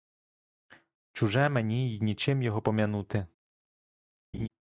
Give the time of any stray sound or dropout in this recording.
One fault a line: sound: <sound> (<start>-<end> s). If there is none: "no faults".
sound: laugh (4.3-4.5 s)